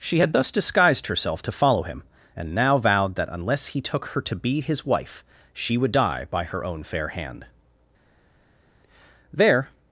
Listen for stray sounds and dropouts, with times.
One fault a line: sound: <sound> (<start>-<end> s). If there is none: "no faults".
no faults